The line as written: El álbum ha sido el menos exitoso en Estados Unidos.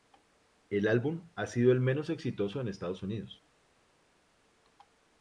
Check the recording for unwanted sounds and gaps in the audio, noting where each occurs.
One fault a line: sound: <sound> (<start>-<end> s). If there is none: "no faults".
no faults